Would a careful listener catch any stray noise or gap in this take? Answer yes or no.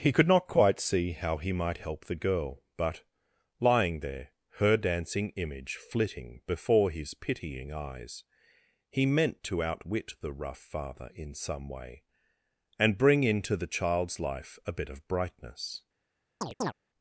yes